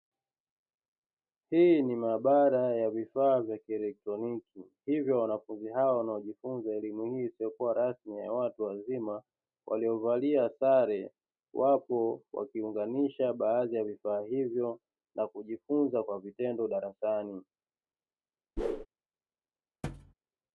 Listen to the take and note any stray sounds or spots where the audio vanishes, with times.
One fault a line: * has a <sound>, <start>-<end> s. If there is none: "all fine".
* has a whoosh, 18.6-18.9 s
* has a thud, 19.8-20.1 s